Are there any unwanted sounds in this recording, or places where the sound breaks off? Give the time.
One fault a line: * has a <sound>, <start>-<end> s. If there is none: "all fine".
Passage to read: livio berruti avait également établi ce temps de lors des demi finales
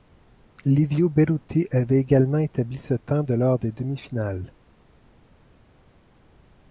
all fine